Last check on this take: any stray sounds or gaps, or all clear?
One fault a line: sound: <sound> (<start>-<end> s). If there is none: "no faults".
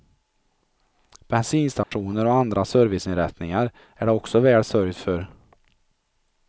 sound: dropout (1.8-1.9 s)